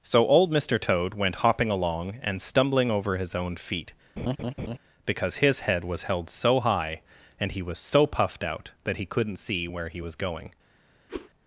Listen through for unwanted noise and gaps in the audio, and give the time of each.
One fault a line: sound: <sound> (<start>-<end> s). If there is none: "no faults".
sound: laugh (4.2-4.8 s)
sound: whoosh (11.1-11.3 s)